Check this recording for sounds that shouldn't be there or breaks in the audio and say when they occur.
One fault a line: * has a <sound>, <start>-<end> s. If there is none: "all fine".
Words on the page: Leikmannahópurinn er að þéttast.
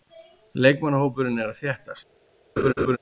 * has a laugh, 2.6-3.0 s